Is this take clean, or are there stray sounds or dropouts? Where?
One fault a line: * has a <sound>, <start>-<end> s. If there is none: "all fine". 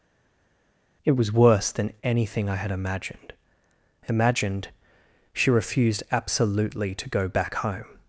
all fine